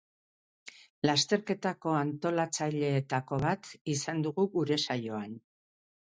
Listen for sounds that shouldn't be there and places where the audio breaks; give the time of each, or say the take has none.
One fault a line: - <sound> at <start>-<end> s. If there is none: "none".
none